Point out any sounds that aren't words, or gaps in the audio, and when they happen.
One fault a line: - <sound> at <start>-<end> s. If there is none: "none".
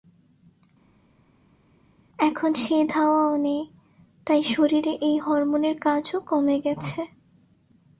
none